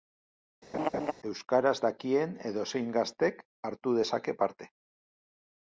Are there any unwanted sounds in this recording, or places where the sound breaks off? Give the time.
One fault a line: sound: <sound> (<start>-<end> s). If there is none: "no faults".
sound: laugh (0.7-1.1 s)